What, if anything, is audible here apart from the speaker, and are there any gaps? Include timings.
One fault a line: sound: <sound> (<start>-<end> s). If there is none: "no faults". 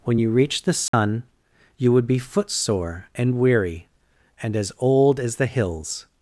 sound: dropout (0.9-0.9 s)